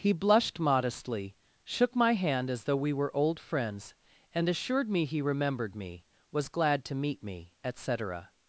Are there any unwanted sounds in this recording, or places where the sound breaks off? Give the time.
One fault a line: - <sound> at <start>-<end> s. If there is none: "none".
none